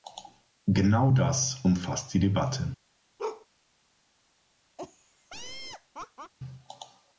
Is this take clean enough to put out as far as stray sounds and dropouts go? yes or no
no